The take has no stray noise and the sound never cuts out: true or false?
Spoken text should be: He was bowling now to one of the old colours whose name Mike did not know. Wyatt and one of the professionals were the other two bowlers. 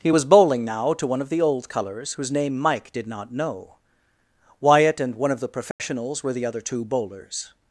false